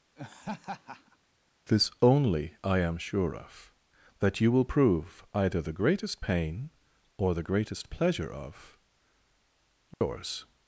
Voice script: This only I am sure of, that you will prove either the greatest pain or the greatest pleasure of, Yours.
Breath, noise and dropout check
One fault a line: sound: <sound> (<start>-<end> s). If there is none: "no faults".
sound: laugh (0.2-1.2 s)
sound: dropout (9.9-10.0 s)